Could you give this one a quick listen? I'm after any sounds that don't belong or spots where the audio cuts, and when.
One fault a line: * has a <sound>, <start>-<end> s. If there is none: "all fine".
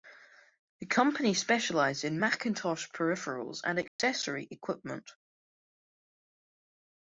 * has a dropout, 3.9-4.0 s